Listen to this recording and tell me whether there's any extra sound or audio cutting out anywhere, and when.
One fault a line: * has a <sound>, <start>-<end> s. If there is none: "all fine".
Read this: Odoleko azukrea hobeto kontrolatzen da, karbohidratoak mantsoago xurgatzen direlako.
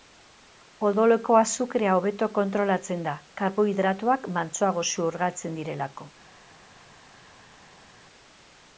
all fine